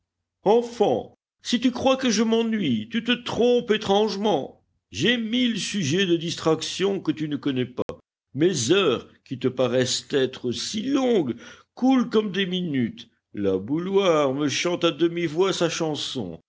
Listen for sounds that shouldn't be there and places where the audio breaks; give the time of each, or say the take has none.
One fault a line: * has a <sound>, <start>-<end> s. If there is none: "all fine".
* has a dropout, 7.8-7.9 s